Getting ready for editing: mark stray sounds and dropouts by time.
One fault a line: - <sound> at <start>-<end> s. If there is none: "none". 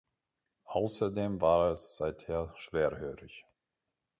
none